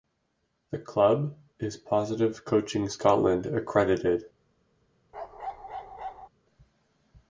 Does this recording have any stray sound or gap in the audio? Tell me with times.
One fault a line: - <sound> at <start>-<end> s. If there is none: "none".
- bark at 5.1-6.3 s